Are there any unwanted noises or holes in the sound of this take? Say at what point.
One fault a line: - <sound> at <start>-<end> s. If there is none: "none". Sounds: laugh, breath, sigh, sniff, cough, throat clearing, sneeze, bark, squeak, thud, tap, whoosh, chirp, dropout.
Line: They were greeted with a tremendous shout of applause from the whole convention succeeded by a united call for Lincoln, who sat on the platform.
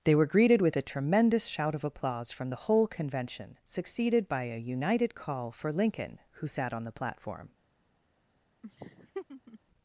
- laugh at 8.6-9.6 s